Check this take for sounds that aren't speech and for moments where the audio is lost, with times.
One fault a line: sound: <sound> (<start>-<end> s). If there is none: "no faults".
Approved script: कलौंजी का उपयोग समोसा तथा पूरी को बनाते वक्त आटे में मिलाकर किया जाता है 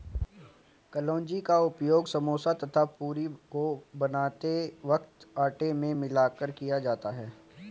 no faults